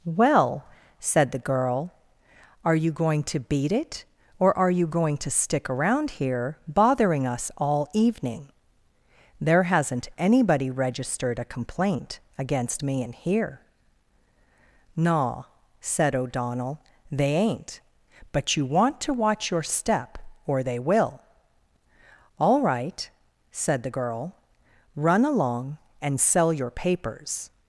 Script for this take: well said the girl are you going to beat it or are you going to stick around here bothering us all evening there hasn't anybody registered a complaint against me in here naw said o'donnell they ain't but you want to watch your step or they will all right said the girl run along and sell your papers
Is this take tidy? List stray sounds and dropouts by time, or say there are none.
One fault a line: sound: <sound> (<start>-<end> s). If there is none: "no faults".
no faults